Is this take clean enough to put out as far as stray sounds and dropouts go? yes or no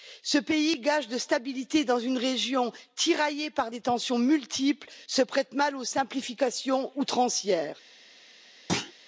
no